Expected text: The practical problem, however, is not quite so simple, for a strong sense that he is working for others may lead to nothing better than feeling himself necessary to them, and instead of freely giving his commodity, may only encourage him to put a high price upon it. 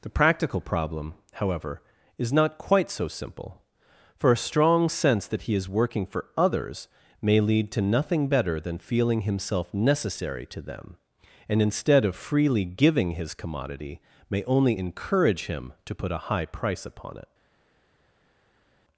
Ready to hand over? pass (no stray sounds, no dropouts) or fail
pass